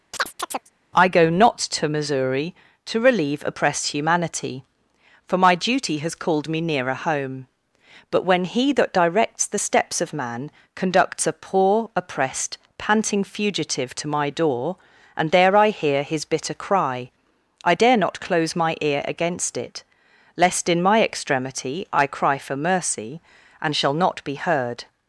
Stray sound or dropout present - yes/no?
yes